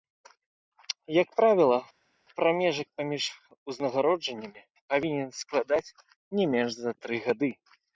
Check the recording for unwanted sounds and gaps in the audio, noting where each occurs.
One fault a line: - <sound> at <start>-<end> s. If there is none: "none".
none